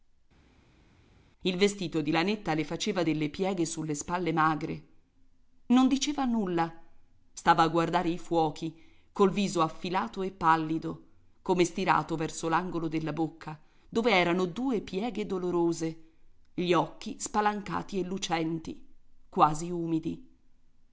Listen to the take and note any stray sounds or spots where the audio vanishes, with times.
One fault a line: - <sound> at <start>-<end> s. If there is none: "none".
none